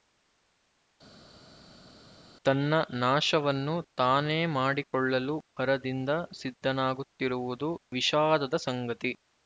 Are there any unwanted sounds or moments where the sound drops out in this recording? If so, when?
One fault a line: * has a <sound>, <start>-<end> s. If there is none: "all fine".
all fine